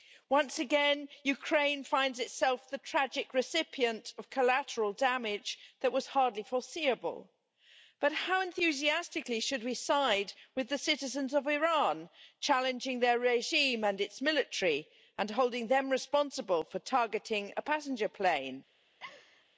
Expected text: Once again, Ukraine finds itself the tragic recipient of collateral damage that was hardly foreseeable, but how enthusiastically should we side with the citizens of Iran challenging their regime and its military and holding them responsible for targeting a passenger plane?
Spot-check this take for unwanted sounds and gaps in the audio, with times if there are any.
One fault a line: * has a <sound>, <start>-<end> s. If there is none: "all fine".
* has a laugh, 19.0-19.5 s